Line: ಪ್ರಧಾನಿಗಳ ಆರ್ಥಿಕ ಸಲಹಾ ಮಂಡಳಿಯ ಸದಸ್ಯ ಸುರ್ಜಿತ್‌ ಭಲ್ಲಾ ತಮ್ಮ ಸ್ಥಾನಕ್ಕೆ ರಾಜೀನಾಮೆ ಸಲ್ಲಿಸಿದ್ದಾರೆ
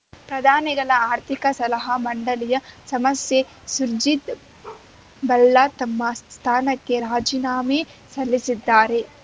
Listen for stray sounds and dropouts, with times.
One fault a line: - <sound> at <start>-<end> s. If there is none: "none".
- bark at 4.6-4.9 s